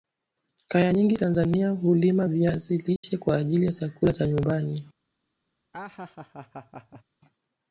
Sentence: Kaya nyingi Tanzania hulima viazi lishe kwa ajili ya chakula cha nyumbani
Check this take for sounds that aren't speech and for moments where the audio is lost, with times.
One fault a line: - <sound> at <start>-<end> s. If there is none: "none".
- dropout at 3.0-3.0 s
- laugh at 5.7-7.0 s